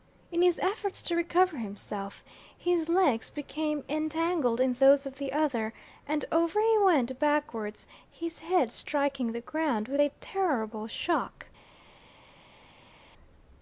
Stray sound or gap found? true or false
false